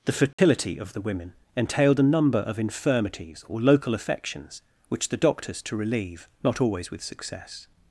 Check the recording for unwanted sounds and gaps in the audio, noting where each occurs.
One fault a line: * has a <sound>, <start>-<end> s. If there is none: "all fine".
* has a dropout, 0.3-0.4 s